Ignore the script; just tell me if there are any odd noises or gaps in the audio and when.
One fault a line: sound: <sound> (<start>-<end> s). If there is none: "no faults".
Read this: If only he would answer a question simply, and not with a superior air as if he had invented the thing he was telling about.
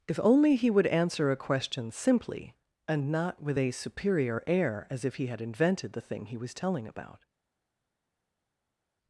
no faults